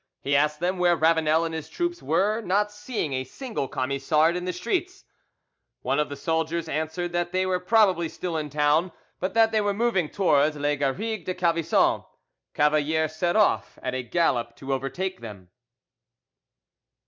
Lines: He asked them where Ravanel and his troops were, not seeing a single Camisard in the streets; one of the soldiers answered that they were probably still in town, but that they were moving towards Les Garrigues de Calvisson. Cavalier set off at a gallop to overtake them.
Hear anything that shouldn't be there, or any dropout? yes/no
no